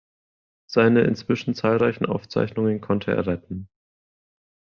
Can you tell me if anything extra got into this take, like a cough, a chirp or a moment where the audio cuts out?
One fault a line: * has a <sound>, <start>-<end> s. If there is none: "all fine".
all fine